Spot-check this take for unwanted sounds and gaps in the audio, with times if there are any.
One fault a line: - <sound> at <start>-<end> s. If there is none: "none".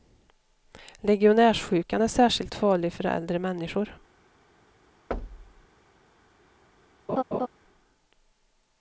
- thud at 5.1-5.7 s
- laugh at 7.1-7.5 s